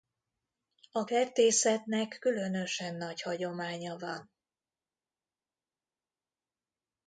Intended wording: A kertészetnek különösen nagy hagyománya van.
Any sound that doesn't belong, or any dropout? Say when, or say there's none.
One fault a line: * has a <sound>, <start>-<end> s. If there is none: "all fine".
all fine